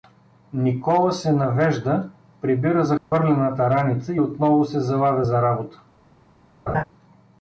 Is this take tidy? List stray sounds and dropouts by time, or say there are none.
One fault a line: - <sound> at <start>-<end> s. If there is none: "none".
- dropout at 3.0-3.1 s
- laugh at 6.7-6.8 s